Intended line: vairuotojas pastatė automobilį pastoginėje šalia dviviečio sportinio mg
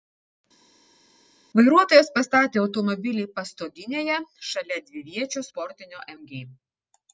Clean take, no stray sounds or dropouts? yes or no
yes